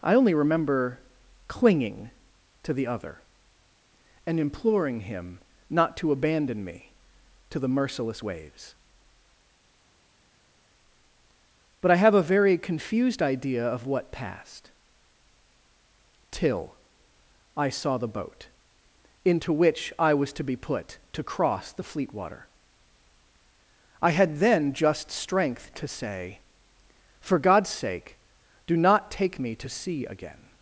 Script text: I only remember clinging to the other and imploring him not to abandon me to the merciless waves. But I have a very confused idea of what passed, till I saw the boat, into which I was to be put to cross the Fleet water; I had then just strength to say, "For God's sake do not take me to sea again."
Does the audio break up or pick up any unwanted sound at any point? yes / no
no